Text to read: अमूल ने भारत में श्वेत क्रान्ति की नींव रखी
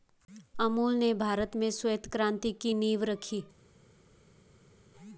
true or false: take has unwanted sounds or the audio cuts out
false